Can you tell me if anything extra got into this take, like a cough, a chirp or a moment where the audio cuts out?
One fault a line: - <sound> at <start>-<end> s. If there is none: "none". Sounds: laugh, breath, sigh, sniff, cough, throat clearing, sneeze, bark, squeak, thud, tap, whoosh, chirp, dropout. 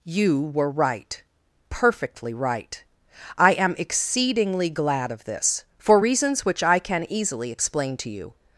none